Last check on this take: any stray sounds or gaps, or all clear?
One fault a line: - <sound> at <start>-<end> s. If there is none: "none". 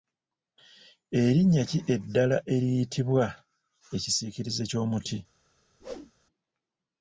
- whoosh at 5.8-6.1 s